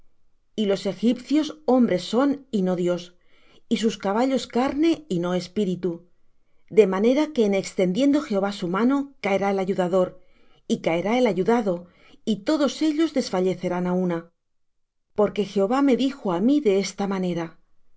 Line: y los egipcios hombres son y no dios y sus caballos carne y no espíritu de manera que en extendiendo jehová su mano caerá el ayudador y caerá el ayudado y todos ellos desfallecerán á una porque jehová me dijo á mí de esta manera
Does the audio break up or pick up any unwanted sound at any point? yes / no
no